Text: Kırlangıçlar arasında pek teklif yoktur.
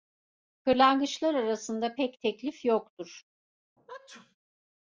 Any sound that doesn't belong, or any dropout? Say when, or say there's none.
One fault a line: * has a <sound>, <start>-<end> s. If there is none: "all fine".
* has a sneeze, 3.8-4.4 s